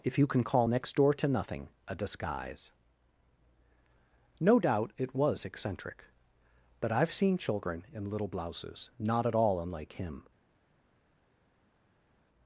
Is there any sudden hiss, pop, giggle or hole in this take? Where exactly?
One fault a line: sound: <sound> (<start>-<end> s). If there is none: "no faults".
no faults